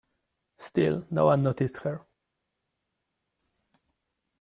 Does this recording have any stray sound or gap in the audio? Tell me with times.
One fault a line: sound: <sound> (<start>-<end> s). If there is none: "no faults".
no faults